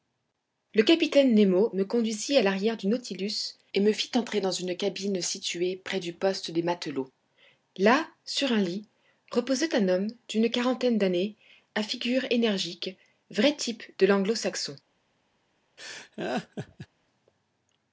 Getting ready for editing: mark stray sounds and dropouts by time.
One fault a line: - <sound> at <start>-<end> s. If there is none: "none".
- laugh at 15.8-16.9 s